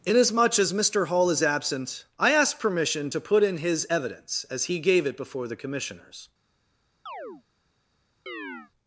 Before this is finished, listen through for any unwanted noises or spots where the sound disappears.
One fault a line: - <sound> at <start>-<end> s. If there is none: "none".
- chirp at 7.1-7.4 s
- chirp at 8.3-8.7 s